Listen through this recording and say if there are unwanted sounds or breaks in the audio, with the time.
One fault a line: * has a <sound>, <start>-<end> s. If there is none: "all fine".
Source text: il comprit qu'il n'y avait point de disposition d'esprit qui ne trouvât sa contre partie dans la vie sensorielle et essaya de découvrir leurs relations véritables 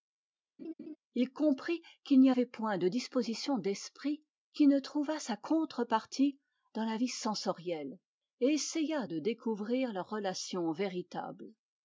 * has a laugh, 0.6-1.0 s